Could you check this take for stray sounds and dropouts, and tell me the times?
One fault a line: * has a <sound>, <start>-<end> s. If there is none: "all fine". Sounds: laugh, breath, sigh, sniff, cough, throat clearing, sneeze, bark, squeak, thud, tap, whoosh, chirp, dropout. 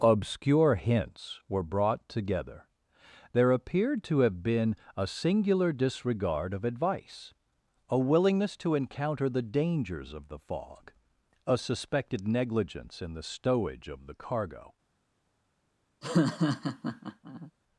* has a laugh, 16.0-17.5 s